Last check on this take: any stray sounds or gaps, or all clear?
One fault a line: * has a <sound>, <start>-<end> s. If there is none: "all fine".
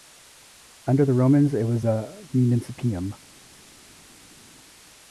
all fine